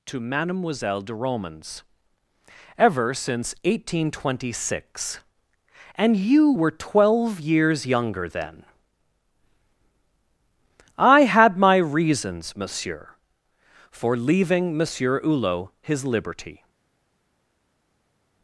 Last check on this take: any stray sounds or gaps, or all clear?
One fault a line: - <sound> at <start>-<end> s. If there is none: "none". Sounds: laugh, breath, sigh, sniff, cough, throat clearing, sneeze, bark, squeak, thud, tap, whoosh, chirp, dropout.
none